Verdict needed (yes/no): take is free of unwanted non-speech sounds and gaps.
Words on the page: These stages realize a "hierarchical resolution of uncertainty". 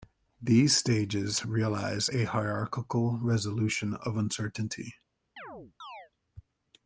no